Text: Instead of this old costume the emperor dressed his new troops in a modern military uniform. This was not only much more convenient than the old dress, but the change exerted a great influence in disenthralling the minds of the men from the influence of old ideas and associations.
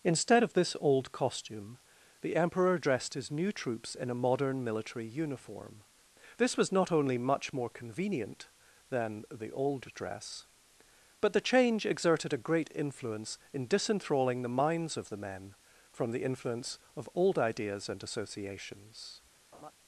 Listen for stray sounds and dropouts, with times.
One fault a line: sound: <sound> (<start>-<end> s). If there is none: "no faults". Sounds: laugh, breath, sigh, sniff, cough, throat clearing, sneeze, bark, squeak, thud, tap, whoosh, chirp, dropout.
sound: laugh (19.5-19.7 s)